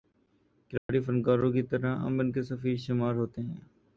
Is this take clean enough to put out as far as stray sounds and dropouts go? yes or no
no